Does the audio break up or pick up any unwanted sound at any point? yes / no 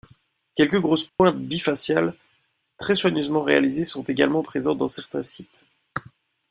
yes